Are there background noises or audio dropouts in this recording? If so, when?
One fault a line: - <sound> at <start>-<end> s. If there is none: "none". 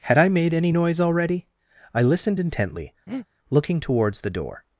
- breath at 3.1-3.3 s